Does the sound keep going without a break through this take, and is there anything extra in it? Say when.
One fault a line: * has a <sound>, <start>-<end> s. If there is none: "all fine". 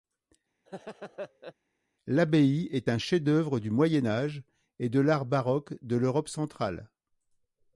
* has a laugh, 0.7-1.5 s